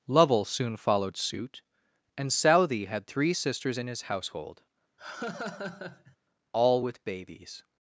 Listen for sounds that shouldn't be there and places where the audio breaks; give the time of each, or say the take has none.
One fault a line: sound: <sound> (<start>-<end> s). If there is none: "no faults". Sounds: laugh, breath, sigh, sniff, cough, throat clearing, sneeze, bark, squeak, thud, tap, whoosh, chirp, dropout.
sound: laugh (5.0-6.2 s)